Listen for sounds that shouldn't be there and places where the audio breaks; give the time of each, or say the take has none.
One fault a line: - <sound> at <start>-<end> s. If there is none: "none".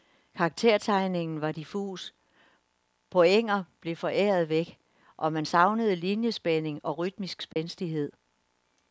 - dropout at 7.5-7.6 s